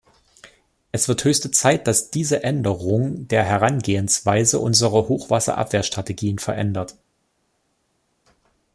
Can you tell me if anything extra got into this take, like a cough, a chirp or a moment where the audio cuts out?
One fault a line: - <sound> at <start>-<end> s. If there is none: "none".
none